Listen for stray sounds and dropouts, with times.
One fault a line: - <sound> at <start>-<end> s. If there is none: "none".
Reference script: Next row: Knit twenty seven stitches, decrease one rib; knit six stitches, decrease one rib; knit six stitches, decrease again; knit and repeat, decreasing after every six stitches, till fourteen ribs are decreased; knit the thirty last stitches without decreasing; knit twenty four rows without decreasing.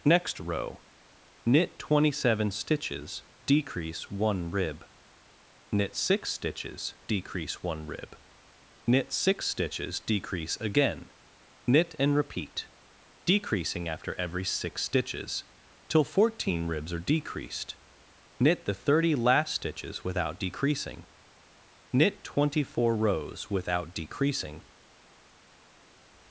none